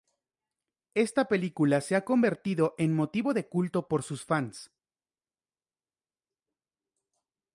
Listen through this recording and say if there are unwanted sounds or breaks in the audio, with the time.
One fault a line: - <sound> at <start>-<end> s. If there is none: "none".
none